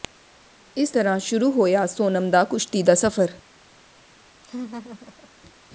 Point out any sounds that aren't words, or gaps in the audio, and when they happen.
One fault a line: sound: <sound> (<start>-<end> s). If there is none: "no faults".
sound: laugh (4.4-5.3 s)